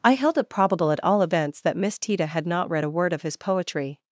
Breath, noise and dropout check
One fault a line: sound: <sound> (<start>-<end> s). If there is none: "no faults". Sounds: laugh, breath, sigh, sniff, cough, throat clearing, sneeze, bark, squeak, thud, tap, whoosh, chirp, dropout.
no faults